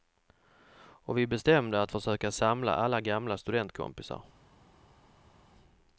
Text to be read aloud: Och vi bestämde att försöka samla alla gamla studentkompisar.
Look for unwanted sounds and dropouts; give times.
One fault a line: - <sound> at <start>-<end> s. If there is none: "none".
none